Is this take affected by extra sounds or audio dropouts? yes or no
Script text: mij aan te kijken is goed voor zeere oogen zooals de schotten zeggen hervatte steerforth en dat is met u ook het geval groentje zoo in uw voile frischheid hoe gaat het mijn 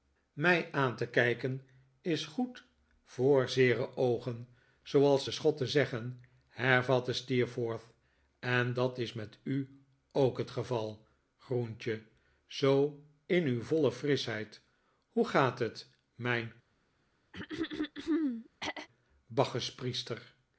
yes